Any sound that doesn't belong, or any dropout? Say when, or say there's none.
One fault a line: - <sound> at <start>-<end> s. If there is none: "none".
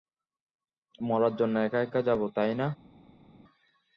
none